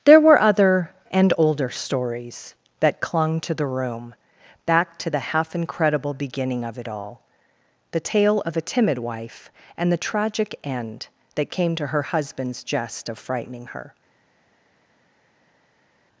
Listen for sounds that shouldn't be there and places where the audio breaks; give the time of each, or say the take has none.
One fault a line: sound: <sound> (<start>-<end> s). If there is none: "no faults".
no faults